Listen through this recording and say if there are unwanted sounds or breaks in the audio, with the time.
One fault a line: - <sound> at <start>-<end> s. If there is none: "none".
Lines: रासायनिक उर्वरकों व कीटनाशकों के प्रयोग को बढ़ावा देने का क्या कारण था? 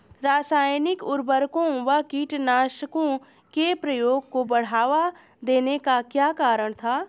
none